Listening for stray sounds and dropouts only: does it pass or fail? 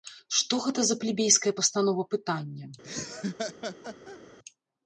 fail